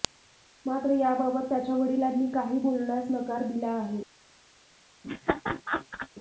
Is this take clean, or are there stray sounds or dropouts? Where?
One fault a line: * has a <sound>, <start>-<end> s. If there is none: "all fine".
* has a laugh, 5.0-6.1 s